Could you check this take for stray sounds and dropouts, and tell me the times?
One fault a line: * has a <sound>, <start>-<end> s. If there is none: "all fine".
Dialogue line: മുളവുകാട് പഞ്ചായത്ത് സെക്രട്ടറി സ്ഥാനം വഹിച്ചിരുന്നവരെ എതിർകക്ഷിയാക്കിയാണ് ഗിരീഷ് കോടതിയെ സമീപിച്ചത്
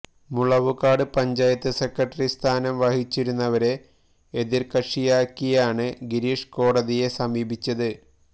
all fine